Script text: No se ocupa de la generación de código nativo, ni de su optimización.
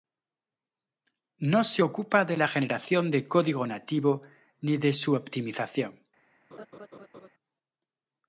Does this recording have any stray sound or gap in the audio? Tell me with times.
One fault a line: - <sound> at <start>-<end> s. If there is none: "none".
- laugh at 6.5-7.3 s